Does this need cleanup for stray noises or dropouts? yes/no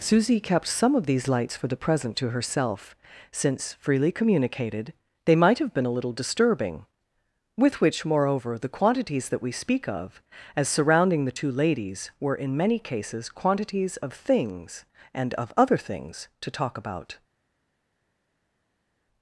no